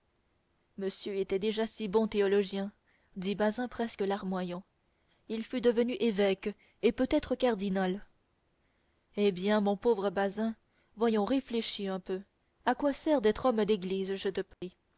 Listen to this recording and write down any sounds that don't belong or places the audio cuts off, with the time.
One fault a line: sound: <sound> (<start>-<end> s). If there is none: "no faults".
sound: dropout (14.5-14.6 s)